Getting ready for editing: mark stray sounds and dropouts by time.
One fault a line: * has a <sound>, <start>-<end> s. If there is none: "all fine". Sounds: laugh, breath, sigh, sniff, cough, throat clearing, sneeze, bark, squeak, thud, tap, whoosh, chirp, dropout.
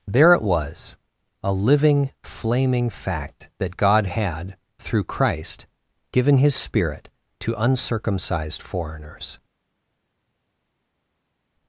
all fine